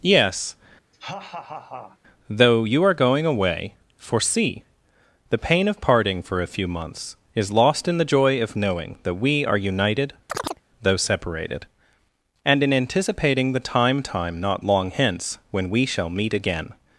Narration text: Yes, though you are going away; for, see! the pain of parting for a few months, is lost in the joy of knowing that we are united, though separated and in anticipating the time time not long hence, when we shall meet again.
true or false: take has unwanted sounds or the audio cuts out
true